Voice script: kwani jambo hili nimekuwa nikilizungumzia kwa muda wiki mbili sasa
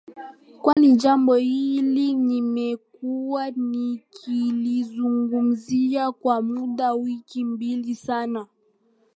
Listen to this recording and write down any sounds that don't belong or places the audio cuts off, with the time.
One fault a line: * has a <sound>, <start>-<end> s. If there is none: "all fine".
* has a dropout, 0.7-0.8 s